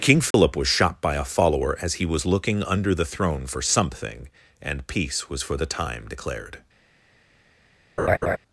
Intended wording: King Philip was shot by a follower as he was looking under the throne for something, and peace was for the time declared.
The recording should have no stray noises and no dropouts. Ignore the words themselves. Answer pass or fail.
fail